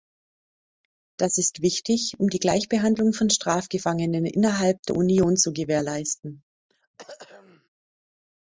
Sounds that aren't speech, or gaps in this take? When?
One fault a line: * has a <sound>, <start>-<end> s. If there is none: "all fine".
* has a throat clearing, 6.7-7.7 s